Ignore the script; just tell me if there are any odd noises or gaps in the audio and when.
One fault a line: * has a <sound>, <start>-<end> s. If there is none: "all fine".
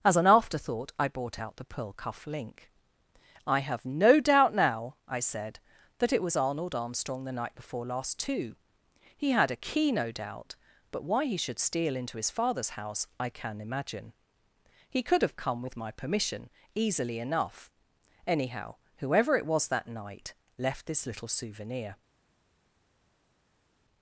all fine